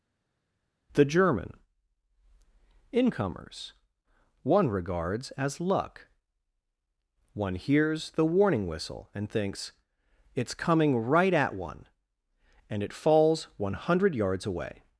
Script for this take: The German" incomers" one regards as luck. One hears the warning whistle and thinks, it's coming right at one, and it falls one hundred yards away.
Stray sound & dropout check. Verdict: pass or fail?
pass